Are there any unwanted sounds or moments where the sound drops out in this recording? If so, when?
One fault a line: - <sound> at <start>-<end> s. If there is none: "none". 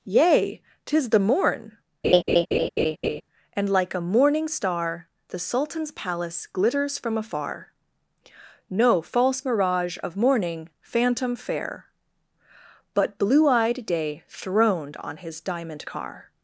- laugh at 2.0-3.2 s